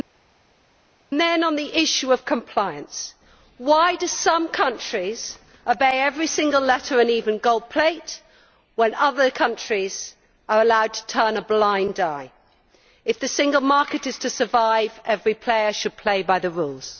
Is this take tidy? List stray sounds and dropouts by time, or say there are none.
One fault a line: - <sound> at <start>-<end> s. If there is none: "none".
none